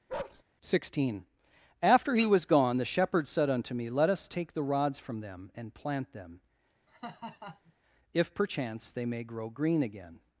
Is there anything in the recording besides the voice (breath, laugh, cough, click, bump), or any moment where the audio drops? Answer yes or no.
yes